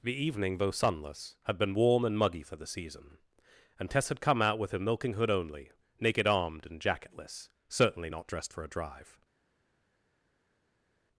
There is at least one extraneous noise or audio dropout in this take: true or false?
false